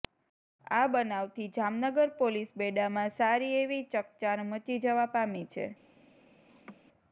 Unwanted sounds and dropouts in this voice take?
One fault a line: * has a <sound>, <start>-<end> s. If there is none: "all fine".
* has a laugh, 6.5-6.8 s